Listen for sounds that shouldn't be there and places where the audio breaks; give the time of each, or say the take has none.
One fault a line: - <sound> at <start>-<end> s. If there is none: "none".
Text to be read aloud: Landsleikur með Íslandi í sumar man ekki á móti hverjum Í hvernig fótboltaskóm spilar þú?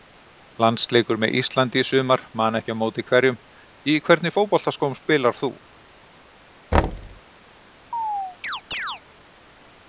- thud at 6.7-7.2 s
- chirp at 7.9-9.0 s